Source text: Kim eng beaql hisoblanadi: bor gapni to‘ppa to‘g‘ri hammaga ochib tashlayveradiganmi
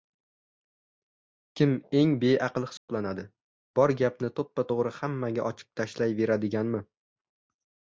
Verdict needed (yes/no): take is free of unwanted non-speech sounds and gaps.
no